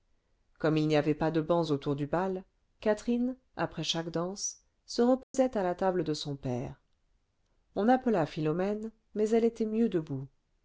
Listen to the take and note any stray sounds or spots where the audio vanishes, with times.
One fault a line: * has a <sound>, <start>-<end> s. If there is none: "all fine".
* has a dropout, 5.2-5.3 s